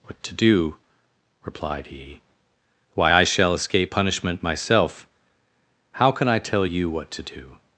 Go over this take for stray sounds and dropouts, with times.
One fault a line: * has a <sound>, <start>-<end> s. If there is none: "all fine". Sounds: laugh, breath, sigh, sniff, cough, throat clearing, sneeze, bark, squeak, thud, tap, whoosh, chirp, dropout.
all fine